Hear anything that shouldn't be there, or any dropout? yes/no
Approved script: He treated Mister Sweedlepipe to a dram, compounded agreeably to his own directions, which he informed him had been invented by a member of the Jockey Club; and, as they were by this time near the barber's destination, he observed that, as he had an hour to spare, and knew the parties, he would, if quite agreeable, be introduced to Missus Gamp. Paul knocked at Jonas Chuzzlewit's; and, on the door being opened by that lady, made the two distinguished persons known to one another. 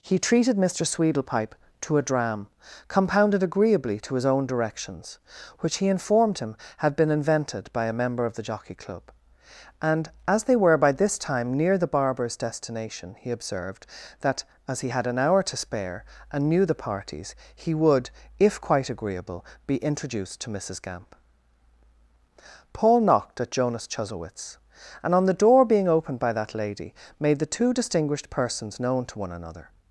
no